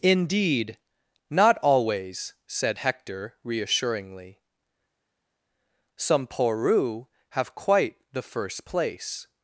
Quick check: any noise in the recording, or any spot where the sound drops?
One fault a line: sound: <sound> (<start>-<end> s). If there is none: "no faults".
no faults